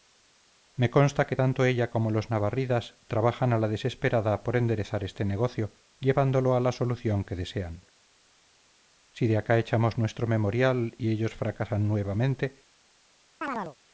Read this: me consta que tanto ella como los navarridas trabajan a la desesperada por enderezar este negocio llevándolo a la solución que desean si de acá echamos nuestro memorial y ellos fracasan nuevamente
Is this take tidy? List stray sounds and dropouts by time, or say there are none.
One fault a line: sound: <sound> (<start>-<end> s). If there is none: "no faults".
sound: chirp (13.4-13.8 s)